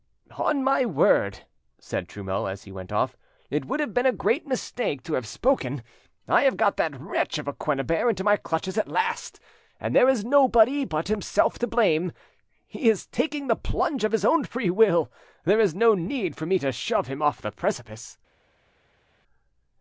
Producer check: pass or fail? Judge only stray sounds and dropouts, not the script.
pass